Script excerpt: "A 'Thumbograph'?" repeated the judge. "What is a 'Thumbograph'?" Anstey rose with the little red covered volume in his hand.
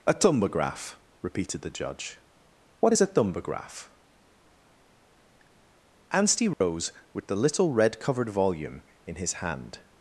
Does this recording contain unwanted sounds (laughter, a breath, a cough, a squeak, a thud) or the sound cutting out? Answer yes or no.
yes